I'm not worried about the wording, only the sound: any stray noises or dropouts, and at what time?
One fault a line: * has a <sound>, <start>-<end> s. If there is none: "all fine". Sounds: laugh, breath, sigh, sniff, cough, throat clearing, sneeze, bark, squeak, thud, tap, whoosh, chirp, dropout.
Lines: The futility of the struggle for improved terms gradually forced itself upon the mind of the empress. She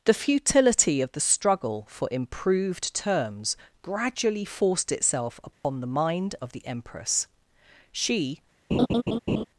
* has a dropout, 5.5-5.6 s
* has a laugh, 8.7-9.4 s